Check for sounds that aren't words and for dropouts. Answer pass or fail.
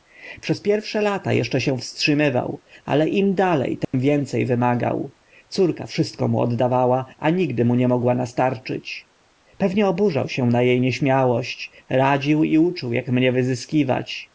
fail